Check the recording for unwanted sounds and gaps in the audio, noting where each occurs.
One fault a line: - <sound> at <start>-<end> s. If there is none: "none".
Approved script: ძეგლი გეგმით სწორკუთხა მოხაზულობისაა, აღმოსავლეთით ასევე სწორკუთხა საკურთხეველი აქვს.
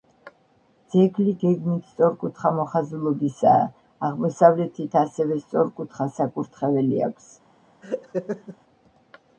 - laugh at 7.8-8.6 s